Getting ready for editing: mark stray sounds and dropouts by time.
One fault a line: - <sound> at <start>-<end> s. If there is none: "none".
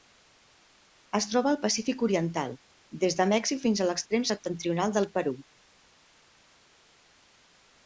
none